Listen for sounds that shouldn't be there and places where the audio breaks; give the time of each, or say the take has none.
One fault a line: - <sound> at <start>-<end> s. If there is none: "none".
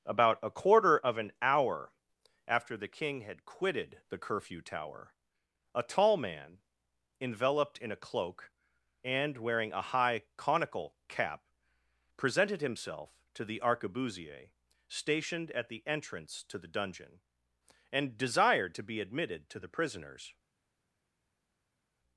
none